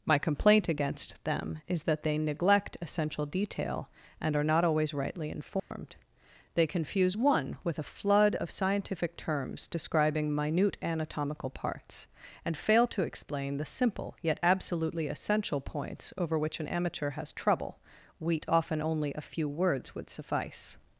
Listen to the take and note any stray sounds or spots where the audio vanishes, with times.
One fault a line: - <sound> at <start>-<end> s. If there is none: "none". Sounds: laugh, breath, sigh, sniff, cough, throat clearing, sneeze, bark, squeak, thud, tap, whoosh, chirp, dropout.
- dropout at 5.6-5.7 s